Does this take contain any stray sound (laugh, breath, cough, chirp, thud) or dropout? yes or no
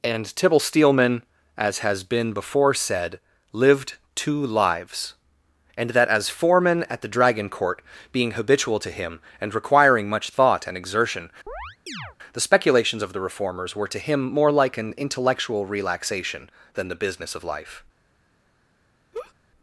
yes